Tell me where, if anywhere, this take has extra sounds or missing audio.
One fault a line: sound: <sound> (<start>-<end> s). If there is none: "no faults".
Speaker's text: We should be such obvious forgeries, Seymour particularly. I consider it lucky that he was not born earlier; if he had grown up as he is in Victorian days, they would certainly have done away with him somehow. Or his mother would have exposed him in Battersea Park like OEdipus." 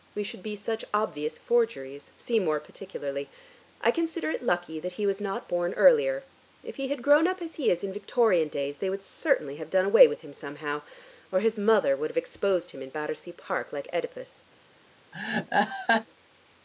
sound: laugh (15.1-16.1 s)